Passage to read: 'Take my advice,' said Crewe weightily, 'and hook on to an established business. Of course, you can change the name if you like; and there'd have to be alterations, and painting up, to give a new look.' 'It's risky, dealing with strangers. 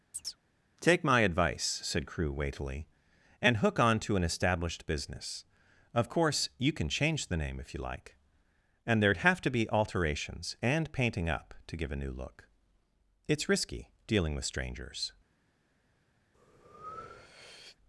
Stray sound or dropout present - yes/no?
yes